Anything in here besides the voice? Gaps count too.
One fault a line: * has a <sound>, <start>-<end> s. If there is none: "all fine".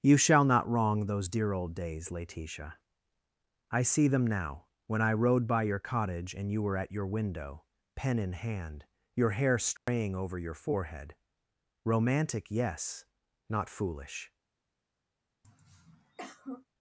* has a dropout, 9.8-9.9 s
* has a throat clearing, 15.4-16.7 s